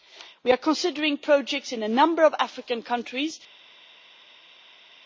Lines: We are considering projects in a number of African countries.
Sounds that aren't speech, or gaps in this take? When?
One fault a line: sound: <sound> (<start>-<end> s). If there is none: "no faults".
no faults